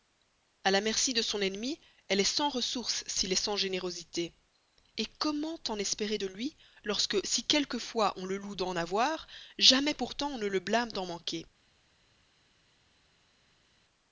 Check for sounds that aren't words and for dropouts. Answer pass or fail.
pass